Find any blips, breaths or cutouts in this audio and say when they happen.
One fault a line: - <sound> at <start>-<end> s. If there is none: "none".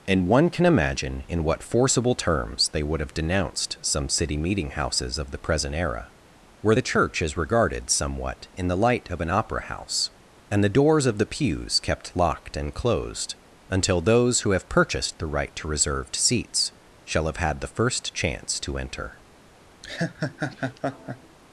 - laugh at 19.8-21.4 s